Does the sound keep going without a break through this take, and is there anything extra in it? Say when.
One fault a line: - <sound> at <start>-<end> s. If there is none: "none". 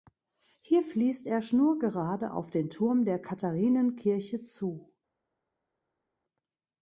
none